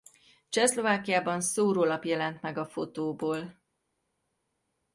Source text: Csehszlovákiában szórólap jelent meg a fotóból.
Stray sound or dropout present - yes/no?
no